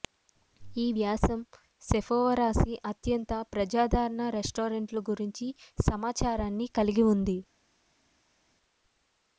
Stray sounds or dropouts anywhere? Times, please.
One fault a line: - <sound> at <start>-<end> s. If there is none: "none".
none